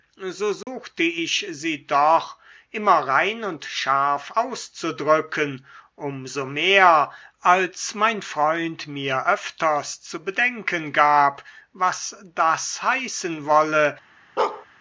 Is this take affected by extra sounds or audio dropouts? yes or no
yes